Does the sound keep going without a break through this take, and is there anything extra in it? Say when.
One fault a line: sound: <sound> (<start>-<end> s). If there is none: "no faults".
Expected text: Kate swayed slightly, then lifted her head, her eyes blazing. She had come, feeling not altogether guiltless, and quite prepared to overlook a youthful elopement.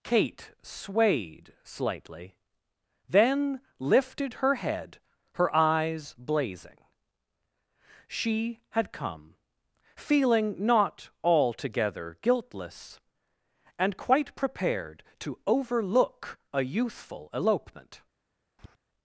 sound: tap (18.6-18.8 s)